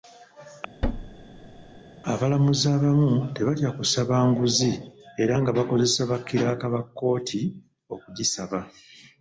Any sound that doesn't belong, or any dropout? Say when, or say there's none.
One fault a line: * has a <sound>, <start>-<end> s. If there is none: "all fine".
* has a thud, 0.8-1.8 s